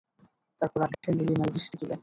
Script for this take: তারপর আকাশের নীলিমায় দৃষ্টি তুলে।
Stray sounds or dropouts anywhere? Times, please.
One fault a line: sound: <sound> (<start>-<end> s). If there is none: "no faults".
sound: dropout (0.9-1.0 s)